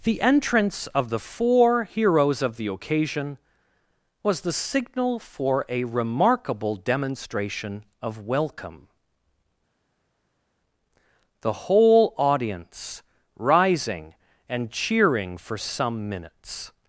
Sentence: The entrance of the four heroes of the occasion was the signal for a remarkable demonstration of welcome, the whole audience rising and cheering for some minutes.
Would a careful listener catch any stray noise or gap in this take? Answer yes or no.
no